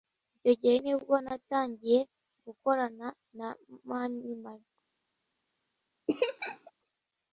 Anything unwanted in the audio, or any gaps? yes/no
yes